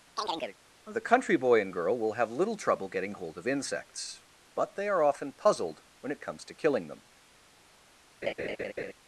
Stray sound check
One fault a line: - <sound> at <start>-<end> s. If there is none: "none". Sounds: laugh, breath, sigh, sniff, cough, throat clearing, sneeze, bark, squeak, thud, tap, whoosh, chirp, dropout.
- chirp at 0.2-0.6 s
- laugh at 8.2-8.9 s